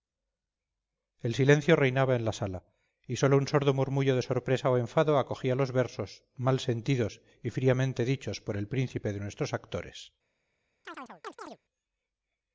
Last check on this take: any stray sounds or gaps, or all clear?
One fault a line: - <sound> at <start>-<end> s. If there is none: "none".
- chirp at 10.8-11.6 s